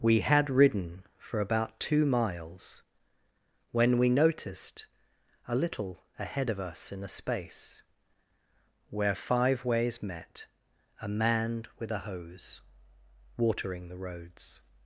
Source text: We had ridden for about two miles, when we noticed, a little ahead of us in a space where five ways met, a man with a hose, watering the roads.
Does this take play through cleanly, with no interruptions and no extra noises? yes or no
yes